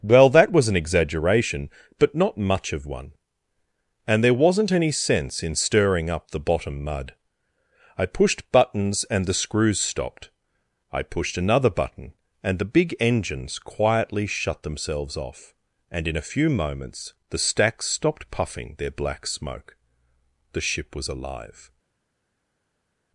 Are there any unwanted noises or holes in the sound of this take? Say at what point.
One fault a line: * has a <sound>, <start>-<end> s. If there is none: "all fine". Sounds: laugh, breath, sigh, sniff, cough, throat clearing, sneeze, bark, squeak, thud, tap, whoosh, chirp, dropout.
all fine